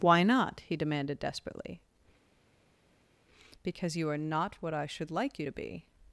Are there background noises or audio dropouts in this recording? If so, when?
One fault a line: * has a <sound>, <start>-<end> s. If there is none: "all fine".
all fine